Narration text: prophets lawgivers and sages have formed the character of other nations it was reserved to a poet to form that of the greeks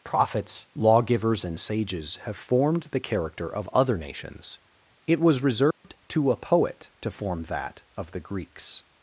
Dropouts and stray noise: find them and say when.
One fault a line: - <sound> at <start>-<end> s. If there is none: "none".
- dropout at 5.7-5.8 s